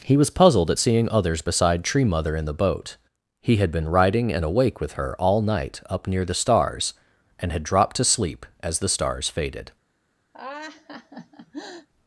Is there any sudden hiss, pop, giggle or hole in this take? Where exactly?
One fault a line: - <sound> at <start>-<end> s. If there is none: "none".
- laugh at 10.3-11.9 s